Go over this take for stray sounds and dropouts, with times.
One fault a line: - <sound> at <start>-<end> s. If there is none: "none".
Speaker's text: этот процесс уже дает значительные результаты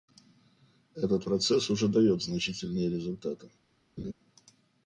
- laugh at 4.0-4.1 s